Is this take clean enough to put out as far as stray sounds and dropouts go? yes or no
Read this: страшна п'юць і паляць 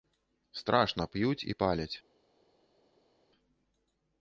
yes